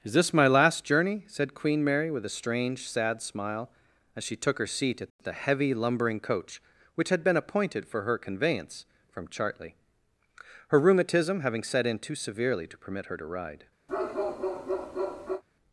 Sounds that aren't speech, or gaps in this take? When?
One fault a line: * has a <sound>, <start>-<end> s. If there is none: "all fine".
* has a bark, 13.9-15.4 s